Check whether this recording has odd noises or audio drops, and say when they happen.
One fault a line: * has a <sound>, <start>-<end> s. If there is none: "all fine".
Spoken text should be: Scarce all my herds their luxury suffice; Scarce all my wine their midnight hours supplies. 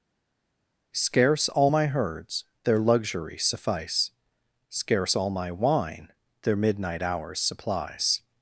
all fine